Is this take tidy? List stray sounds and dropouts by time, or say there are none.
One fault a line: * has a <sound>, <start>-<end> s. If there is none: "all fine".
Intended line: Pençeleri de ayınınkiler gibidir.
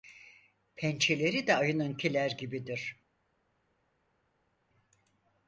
all fine